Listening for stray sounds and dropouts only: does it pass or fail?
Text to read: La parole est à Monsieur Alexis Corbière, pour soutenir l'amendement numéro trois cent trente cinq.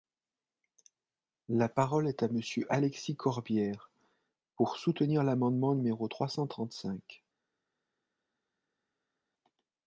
pass